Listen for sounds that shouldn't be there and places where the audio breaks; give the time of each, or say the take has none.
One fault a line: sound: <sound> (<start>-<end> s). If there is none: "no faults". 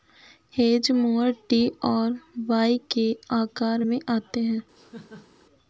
sound: laugh (4.8-5.4 s)